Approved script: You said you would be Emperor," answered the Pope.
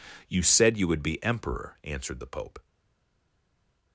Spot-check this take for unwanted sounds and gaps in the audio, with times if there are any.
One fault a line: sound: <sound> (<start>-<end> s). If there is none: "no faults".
no faults